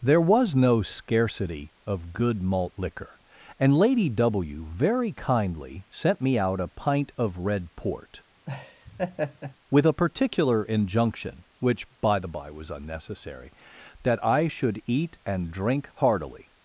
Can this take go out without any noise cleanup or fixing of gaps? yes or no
no